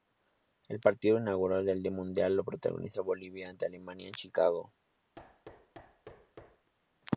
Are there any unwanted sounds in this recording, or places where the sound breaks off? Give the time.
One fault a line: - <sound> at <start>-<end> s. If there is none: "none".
- thud at 5.2-6.7 s